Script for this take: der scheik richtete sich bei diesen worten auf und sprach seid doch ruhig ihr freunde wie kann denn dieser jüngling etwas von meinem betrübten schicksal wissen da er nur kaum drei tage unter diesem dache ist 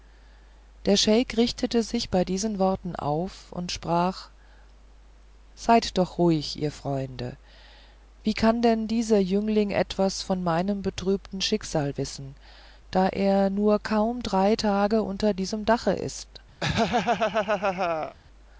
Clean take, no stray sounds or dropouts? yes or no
no